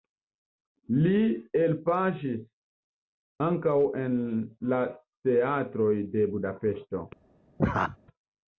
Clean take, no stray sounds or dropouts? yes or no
no